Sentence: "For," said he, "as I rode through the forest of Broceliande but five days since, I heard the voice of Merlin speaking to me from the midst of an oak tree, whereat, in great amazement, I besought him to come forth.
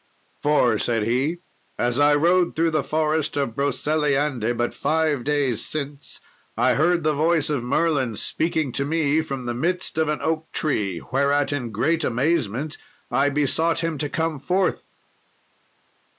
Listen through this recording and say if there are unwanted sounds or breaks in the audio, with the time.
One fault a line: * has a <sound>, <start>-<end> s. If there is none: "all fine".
all fine